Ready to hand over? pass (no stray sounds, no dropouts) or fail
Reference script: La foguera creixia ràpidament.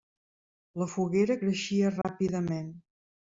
fail